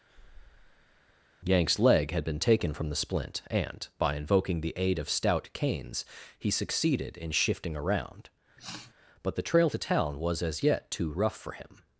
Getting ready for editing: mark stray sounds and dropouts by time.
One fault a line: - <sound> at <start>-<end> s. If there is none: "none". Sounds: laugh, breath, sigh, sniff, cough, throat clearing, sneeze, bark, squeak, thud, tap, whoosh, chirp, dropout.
- breath at 0.1-1.2 s
- sniff at 8.6-8.9 s